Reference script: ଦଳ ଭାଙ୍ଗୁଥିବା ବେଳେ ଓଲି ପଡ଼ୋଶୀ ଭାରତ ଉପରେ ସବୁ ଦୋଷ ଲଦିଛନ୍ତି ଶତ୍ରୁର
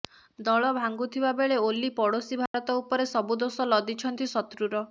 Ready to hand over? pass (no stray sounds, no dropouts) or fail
fail